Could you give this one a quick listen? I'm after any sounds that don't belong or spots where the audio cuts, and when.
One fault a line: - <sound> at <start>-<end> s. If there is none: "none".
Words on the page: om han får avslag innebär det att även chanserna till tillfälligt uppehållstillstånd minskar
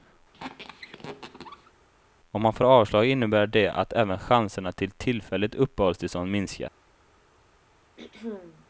- squeak at 0.3-1.7 s
- throat clearing at 8.0-8.7 s